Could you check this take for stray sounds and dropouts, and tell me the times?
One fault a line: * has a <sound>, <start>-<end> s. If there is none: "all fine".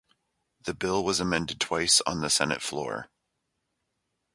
all fine